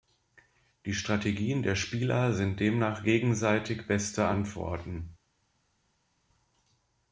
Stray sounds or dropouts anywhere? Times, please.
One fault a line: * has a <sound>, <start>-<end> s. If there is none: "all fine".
all fine